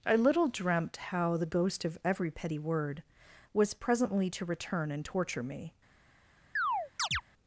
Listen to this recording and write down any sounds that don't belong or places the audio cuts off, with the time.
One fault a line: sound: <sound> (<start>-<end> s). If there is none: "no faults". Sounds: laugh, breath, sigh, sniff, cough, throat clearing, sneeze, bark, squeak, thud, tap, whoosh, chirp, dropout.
sound: chirp (6.6-7.2 s)